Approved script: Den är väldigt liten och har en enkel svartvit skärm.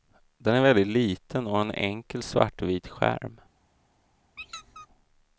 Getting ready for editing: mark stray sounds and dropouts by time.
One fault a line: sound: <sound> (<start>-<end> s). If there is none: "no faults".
sound: squeak (4.4-4.9 s)